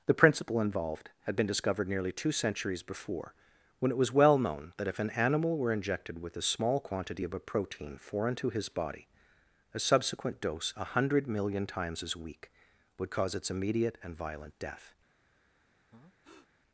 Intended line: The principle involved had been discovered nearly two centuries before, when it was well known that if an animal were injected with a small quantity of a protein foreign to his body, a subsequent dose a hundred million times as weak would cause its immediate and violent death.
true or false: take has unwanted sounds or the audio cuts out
true